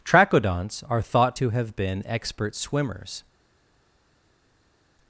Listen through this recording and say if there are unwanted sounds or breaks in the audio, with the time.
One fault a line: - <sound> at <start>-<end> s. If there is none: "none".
none